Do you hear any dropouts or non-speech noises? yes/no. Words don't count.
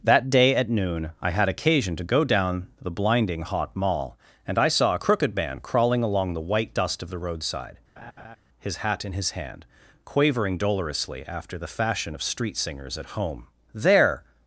yes